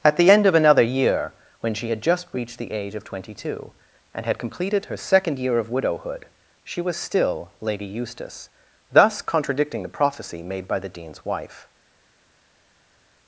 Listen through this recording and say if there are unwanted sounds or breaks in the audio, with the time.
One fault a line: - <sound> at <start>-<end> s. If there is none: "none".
none